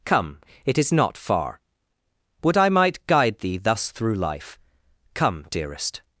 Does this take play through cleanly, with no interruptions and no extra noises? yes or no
yes